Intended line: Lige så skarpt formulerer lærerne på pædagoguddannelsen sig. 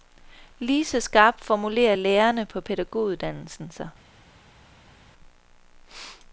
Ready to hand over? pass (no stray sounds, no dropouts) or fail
pass